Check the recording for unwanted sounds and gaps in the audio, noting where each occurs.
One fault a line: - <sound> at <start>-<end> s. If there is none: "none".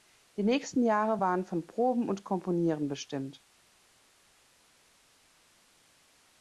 none